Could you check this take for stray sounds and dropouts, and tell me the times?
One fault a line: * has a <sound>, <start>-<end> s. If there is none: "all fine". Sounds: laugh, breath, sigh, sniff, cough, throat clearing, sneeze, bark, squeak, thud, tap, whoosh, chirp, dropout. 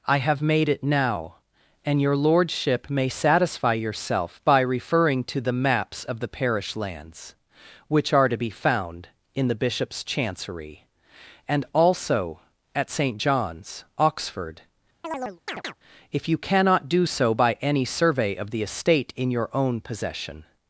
* has a chirp, 15.0-15.7 s